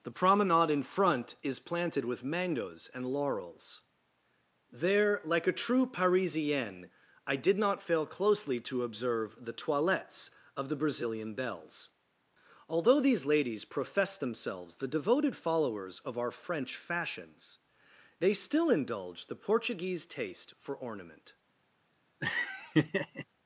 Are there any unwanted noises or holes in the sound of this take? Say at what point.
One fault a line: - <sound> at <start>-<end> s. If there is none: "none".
- laugh at 22.2-23.3 s